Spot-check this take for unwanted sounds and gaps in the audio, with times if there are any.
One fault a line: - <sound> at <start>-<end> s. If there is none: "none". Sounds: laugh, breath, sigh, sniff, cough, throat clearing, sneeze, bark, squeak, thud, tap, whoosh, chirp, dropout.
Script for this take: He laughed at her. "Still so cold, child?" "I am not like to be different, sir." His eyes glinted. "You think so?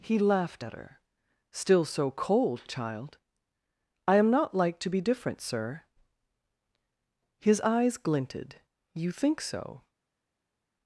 none